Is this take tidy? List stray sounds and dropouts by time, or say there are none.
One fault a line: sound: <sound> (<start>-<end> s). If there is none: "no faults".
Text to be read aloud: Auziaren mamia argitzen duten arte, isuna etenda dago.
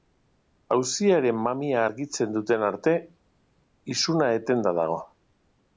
no faults